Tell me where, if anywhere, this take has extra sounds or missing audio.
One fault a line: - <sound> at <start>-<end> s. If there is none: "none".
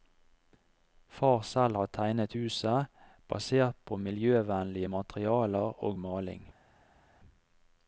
none